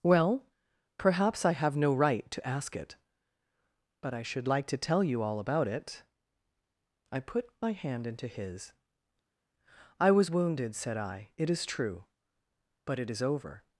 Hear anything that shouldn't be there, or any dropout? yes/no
no